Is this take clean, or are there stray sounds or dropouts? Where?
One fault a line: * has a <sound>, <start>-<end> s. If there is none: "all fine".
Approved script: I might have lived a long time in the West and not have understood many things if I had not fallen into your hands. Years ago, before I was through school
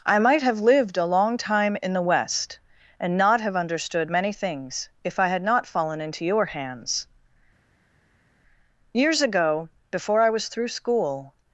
all fine